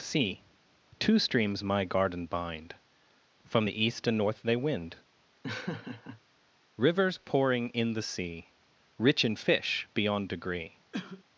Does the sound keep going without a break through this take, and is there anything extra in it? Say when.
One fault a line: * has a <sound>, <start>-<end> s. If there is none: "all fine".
* has a laugh, 5.4-6.2 s
* has a cough, 10.9-11.2 s